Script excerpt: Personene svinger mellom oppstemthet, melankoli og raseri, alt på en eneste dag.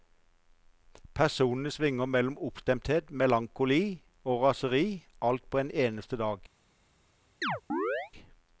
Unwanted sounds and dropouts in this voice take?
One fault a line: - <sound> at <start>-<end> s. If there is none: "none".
- chirp at 7.4-8.1 s